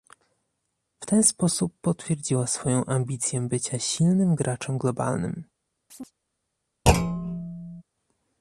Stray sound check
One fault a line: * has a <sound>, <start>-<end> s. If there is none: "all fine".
* has a chirp, 5.9-6.1 s
* has a thud, 6.9-7.8 s